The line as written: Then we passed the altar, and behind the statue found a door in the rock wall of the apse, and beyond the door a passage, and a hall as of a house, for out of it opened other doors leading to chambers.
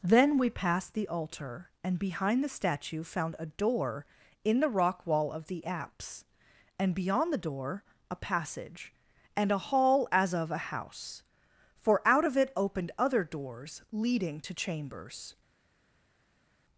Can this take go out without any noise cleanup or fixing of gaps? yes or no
yes